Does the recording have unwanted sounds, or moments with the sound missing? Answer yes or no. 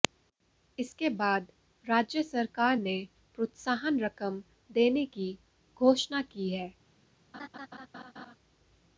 yes